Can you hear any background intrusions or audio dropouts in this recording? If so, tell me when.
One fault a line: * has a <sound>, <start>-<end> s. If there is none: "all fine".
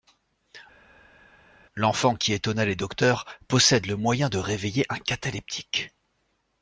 all fine